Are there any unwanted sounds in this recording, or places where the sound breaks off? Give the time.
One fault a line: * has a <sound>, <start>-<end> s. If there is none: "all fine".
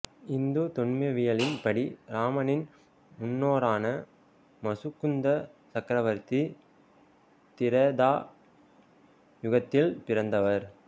all fine